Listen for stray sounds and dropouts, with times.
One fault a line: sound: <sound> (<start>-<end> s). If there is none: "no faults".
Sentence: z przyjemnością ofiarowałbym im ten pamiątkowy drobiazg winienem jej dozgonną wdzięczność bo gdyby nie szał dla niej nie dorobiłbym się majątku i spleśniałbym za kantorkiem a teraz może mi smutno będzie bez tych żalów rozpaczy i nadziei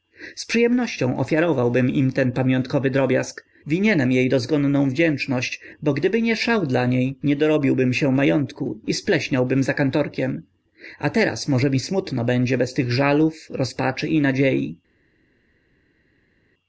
no faults